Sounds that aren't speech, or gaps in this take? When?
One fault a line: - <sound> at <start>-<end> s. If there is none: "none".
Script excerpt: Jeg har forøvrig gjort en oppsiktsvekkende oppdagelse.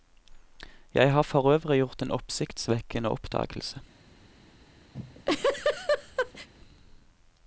- laugh at 4.9-6.5 s